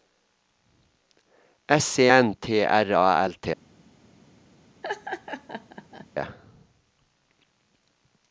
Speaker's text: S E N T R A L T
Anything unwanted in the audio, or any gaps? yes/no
yes